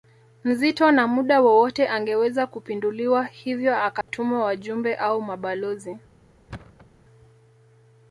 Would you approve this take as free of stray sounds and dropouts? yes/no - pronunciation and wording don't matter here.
no